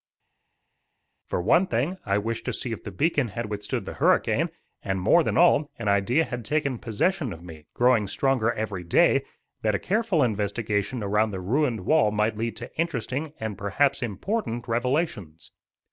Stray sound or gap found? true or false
false